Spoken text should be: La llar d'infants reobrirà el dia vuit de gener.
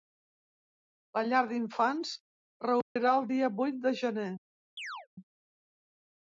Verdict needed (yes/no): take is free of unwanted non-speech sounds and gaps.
no